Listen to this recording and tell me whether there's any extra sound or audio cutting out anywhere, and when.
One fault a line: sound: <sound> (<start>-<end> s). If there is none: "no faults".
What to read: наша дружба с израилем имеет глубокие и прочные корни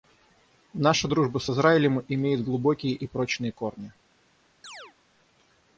sound: chirp (4.6-4.9 s)